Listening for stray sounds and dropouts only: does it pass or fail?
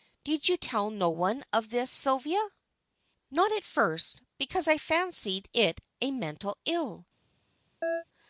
fail